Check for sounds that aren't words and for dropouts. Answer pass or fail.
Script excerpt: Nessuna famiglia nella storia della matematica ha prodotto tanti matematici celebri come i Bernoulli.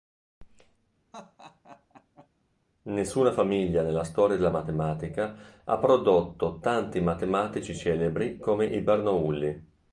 fail